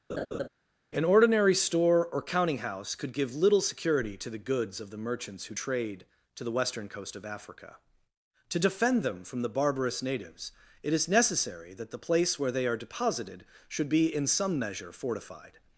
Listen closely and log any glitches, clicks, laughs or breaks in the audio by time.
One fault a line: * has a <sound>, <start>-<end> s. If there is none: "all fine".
* has a laugh, 0.1-0.5 s